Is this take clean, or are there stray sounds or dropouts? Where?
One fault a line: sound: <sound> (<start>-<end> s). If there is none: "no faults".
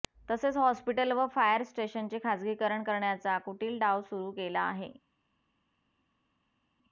no faults